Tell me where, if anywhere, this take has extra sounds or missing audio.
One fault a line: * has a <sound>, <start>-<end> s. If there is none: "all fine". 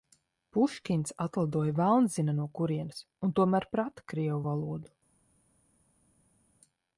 all fine